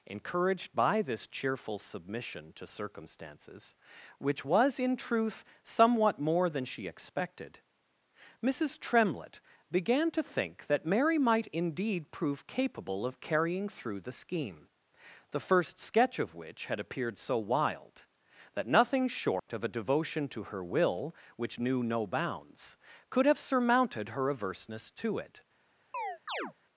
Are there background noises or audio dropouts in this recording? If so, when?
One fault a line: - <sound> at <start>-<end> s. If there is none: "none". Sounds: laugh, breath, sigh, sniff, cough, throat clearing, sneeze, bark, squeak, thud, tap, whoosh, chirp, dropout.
- dropout at 19.4-19.5 s
- chirp at 25.9-26.5 s